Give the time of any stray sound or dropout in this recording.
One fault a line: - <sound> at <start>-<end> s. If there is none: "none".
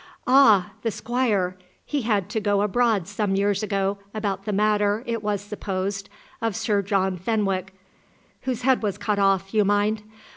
none